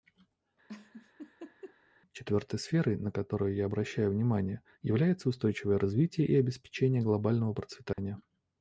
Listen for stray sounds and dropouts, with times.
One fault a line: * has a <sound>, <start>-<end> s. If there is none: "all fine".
* has a laugh, 0.7-1.8 s
* has a dropout, 7.9-8.0 s